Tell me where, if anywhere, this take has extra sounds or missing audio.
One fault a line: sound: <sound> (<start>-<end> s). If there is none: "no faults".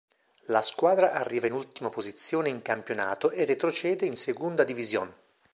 no faults